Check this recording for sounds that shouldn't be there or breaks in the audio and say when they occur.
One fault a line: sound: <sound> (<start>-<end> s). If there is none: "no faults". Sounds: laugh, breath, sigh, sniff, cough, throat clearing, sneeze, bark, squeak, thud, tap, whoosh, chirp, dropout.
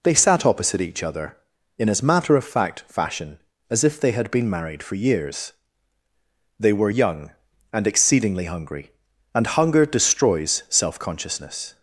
no faults